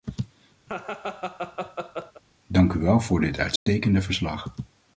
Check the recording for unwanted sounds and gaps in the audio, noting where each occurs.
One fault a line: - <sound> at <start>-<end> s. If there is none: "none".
- laugh at 0.7-2.2 s
- dropout at 3.6-3.7 s